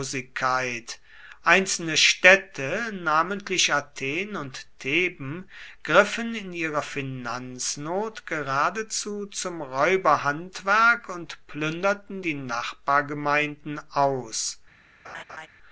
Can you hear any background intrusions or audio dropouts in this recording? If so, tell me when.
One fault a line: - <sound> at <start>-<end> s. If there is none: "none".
- laugh at 15.0-15.5 s